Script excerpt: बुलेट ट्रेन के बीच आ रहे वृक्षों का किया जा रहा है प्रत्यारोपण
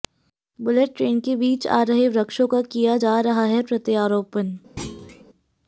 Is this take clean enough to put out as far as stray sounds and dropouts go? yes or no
no